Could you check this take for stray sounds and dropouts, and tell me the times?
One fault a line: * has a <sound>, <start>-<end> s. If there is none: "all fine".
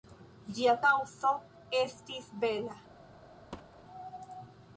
* has a thud, 3.5-3.8 s